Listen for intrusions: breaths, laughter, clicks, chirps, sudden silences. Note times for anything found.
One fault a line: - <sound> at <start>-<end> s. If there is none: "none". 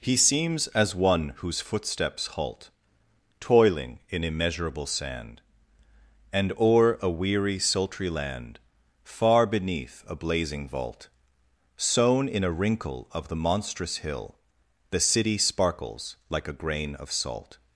none